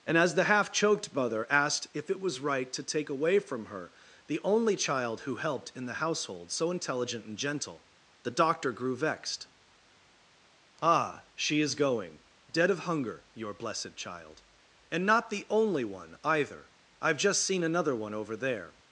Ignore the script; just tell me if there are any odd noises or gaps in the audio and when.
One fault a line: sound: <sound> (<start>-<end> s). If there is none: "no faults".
no faults